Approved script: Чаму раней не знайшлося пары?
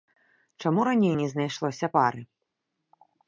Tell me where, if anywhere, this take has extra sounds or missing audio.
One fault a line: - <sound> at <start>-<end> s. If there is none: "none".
none